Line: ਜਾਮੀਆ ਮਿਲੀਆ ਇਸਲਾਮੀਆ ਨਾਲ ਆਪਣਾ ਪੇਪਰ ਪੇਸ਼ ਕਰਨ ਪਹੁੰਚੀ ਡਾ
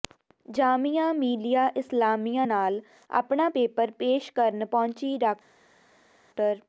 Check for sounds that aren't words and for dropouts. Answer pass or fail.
pass